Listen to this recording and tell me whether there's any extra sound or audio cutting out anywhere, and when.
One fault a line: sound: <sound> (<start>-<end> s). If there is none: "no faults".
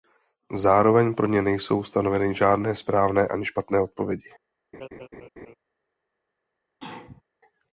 sound: laugh (4.7-5.5 s)
sound: sneeze (6.8-7.2 s)